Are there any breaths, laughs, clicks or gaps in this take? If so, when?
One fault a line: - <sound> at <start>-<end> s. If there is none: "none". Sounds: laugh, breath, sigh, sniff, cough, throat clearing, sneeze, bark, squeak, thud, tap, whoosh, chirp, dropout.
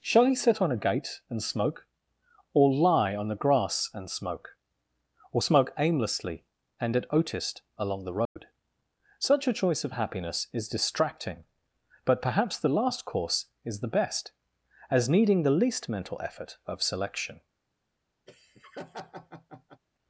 - dropout at 8.2-8.4 s
- laugh at 18.3-19.8 s